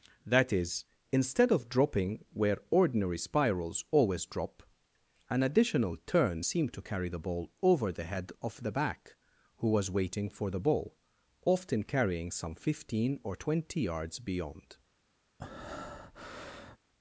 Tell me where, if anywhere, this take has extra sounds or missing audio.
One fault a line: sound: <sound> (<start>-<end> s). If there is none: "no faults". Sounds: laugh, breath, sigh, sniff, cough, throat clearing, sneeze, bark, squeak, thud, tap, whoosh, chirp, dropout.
sound: breath (15.4-16.8 s)